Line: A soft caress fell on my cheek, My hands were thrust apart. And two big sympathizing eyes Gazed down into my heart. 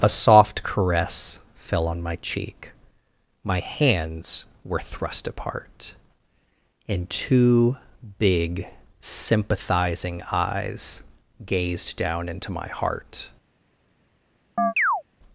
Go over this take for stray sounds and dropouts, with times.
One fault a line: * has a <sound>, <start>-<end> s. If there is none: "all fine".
* has a chirp, 14.6-15.0 s